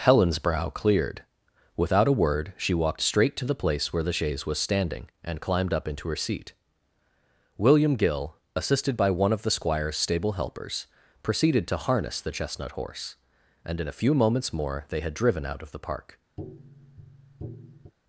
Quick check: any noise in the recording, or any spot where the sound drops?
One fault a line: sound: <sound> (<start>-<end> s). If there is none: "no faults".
sound: tap (16.4-17.9 s)